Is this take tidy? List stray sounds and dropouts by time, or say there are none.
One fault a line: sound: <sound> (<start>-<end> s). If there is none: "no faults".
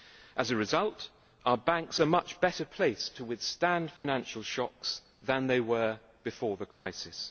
sound: dropout (4.0-4.0 s)
sound: dropout (6.7-6.9 s)